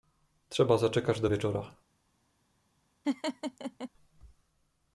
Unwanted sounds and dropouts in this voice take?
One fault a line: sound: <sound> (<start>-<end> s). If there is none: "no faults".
sound: laugh (3.0-3.9 s)